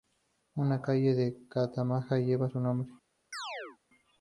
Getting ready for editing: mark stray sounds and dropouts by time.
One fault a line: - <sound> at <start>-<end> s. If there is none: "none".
- chirp at 3.3-3.8 s